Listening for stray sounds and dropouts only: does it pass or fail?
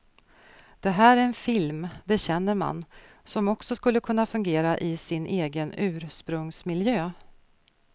pass